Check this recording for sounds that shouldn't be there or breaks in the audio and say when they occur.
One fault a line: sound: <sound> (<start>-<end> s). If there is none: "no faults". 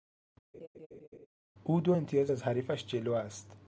sound: laugh (0.5-1.3 s)